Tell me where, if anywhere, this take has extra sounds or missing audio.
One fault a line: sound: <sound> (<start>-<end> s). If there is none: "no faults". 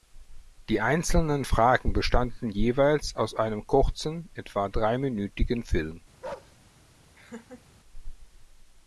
sound: bark (6.2-6.6 s)
sound: laugh (7.1-7.6 s)